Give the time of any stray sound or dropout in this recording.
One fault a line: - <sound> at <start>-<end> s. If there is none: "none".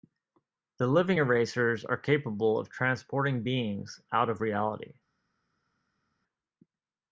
none